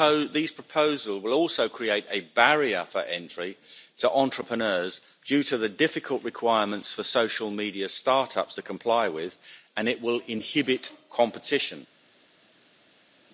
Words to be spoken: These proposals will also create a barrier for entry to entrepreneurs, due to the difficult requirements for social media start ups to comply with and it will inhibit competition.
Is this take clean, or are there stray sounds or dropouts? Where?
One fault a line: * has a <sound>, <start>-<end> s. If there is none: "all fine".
all fine